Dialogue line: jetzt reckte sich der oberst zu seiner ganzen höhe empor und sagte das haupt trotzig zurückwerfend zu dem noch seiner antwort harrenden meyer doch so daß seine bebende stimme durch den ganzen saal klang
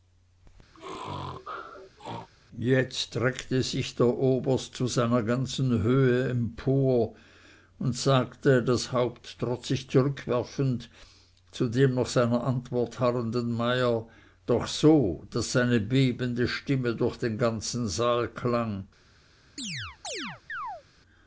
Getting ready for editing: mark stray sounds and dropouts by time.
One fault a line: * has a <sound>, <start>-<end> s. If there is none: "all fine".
* has a sneeze, 0.7-2.3 s
* has a chirp, 19.6-20.8 s